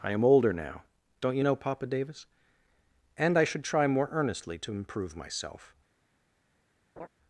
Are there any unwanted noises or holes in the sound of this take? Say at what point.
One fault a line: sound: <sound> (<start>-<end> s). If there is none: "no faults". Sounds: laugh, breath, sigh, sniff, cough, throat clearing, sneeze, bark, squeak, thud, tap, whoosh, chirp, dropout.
sound: laugh (7.0-7.1 s)